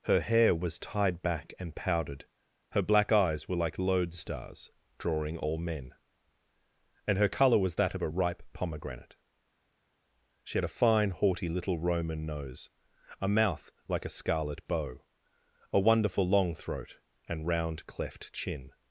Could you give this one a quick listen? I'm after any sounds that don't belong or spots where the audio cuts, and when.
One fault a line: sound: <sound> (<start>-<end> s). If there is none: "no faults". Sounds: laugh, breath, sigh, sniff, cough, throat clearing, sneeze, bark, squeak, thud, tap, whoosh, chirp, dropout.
no faults